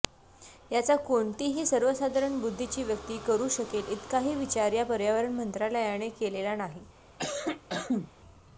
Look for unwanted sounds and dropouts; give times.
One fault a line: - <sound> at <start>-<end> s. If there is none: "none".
- cough at 7.2-8.1 s